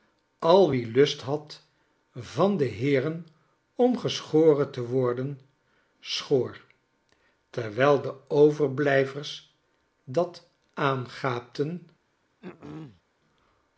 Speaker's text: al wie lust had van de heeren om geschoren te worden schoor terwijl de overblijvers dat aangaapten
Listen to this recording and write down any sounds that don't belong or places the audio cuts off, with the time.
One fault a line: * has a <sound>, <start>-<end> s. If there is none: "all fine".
* has a throat clearing, 12.4-13.0 s